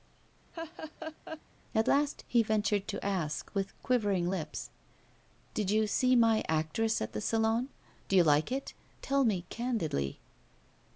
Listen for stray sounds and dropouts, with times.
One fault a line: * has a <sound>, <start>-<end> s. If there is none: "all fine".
* has a laugh, 0.5-1.4 s